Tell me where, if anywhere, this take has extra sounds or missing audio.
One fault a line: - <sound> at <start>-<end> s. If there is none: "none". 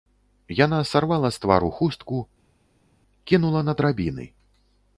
none